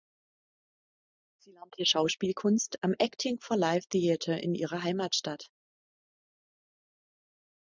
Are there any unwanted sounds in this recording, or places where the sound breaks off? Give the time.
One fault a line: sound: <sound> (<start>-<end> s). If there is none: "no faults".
no faults